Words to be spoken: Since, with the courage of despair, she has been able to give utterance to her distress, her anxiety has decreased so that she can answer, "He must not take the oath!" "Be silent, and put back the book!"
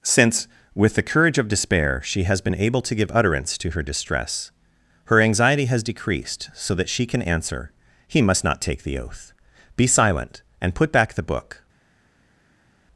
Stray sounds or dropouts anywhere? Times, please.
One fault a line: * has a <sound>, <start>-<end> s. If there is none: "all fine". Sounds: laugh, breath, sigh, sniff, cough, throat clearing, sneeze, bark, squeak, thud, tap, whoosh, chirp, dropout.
all fine